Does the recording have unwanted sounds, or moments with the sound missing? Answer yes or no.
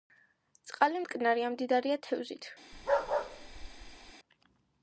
yes